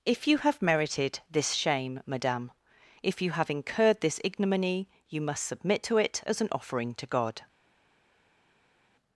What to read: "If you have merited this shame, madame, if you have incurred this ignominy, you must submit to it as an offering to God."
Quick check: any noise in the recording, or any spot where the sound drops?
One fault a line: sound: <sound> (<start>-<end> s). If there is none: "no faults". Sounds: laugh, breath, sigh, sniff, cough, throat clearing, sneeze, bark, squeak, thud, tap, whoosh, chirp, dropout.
no faults